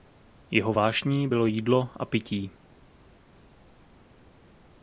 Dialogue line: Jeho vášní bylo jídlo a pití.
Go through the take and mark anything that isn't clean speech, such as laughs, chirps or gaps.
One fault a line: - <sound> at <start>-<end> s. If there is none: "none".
none